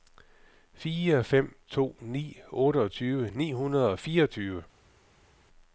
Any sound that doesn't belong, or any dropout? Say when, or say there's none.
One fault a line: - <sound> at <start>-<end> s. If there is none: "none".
none